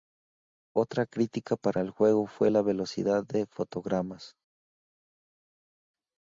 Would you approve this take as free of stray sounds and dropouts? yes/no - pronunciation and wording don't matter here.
yes